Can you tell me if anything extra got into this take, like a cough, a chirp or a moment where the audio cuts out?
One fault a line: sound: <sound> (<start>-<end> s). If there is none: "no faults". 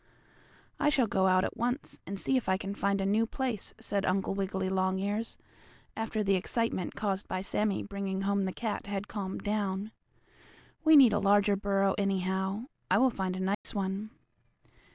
sound: dropout (13.5-13.6 s)